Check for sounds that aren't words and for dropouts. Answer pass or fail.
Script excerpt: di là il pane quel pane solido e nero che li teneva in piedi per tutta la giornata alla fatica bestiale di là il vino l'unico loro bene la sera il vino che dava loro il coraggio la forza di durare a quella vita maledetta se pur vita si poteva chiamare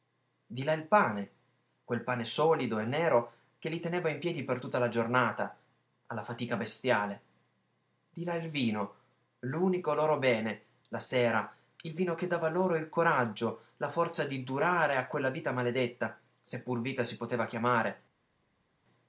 pass